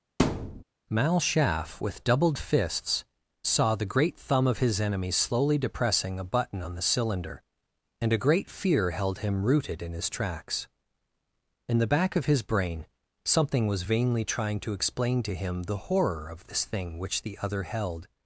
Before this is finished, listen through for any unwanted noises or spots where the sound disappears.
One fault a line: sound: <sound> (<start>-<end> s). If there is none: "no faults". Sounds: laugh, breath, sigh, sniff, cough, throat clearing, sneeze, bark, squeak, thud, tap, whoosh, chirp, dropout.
sound: thud (0.2-0.6 s)